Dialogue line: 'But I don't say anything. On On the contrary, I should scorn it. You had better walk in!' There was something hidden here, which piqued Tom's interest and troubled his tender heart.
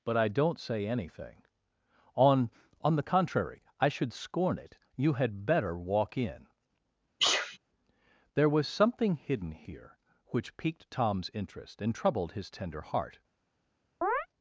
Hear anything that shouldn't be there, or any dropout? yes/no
yes